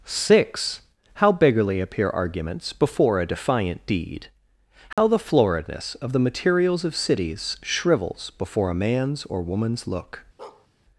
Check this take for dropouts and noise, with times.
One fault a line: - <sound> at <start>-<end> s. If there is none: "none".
- dropout at 4.9-5.0 s
- bark at 10.4-10.7 s